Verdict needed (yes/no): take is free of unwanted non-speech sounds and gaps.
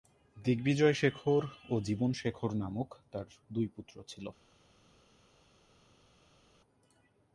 yes